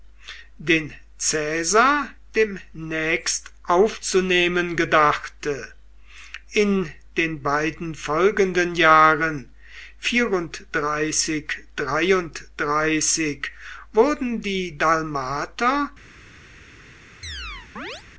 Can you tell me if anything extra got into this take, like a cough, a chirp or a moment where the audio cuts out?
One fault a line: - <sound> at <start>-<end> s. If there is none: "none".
- chirp at 17.2-18.0 s